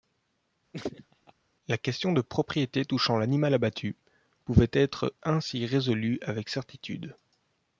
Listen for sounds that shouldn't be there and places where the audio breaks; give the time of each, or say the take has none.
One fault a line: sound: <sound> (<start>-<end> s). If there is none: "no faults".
sound: laugh (0.7-1.3 s)